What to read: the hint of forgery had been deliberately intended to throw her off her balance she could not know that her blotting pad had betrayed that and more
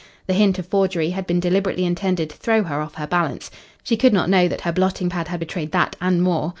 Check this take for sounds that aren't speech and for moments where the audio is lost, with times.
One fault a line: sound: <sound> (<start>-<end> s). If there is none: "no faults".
no faults